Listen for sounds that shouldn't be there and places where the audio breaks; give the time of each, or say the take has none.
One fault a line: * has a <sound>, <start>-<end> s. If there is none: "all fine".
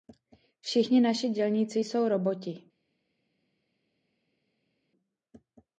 all fine